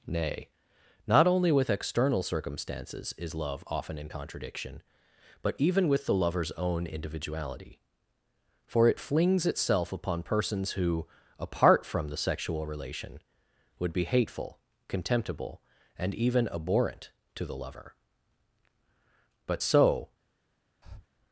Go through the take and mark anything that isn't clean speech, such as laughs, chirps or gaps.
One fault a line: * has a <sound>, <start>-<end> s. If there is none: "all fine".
* has a breath, 20.8-21.1 s